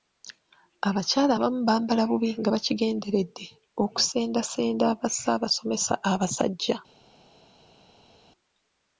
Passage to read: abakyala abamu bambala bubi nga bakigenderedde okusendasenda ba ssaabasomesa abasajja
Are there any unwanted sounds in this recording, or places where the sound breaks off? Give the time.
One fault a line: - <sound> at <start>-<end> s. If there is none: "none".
none